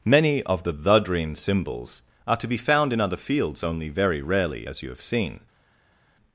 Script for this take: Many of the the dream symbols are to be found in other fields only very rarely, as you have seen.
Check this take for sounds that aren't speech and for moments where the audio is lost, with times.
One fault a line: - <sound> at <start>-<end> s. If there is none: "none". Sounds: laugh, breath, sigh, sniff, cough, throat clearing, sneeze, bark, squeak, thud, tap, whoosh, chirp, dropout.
none